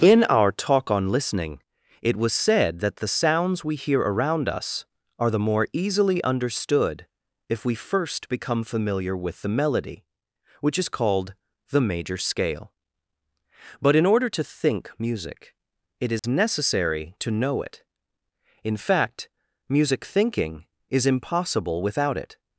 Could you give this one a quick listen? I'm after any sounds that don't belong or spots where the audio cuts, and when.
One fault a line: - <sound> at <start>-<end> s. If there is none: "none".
- dropout at 16.2-16.2 s